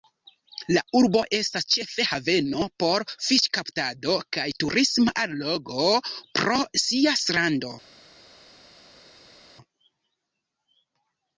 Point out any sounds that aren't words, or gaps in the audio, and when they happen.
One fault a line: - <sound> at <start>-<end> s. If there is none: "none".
none